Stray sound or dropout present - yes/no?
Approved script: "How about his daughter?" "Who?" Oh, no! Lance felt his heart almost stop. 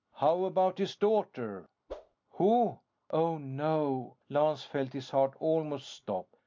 yes